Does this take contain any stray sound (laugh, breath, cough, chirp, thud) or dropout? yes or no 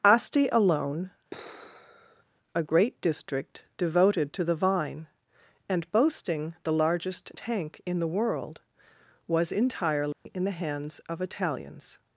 yes